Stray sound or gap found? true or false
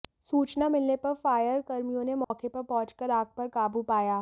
true